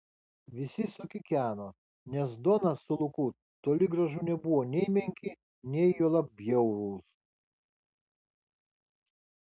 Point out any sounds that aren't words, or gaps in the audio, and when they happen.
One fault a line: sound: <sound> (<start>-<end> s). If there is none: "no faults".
no faults